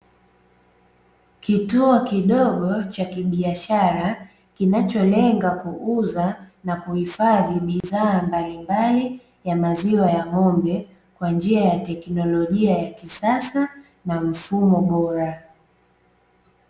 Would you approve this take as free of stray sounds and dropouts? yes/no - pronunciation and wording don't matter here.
no